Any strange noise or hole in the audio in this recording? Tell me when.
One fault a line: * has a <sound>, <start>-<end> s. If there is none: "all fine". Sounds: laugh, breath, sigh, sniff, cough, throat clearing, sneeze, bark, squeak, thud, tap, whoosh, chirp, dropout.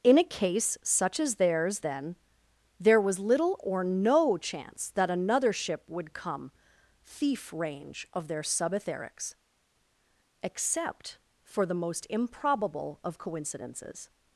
all fine